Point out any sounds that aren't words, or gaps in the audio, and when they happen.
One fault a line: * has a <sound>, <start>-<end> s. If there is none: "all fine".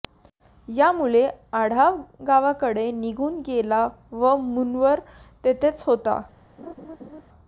* has a laugh, 6.6-7.2 s